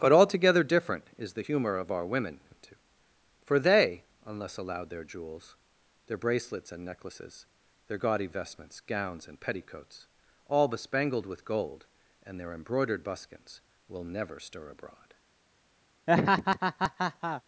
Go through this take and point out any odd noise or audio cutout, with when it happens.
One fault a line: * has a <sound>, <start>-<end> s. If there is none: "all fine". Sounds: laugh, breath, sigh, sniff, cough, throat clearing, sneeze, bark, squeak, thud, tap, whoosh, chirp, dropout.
* has a laugh, 16.1-17.4 s